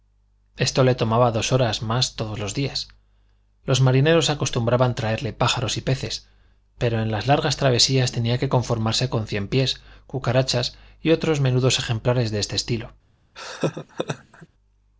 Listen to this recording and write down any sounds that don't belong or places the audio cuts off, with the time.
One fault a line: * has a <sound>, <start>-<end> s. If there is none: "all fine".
* has a laugh, 13.4-14.5 s